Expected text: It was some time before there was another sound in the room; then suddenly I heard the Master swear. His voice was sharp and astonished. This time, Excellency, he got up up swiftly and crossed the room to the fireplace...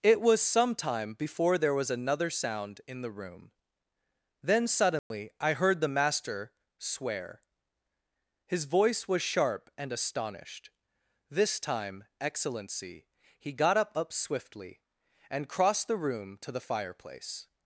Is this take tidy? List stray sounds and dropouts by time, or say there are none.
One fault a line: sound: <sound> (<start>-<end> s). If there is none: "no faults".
sound: dropout (5.0-5.1 s)